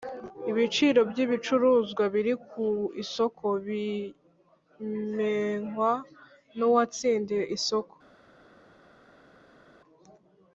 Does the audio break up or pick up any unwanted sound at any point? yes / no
no